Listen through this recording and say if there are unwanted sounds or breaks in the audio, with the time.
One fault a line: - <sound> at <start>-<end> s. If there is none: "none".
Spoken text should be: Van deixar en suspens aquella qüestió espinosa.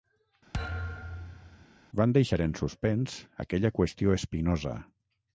- thud at 0.5-1.7 s